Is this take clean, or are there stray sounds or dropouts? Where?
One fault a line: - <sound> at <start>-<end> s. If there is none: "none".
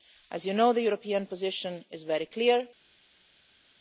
none